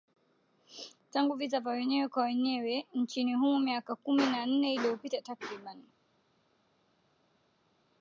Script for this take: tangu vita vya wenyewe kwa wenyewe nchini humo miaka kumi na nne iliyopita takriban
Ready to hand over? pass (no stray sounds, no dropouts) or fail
pass